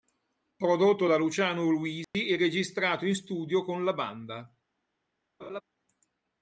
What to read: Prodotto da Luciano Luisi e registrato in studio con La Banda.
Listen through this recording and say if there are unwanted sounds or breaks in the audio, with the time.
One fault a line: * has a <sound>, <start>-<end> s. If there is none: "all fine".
* has a dropout, 2.0-2.1 s
* has a laugh, 5.4-5.6 s